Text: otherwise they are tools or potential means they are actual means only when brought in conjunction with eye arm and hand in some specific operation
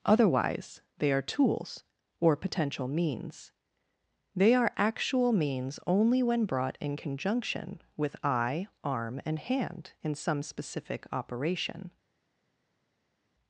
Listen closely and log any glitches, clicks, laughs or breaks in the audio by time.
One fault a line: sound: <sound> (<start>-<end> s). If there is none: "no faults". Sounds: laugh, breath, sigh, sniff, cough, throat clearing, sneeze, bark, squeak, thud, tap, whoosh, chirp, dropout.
no faults